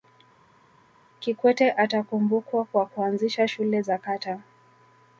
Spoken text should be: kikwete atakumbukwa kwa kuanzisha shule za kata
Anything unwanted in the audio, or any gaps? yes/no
no